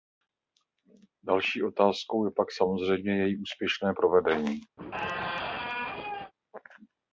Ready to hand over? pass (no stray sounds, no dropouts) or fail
fail